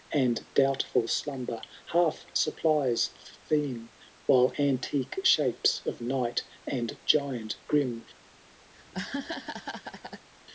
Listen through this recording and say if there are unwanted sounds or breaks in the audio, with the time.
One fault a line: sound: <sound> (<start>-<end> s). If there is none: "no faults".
sound: laugh (8.7-10.3 s)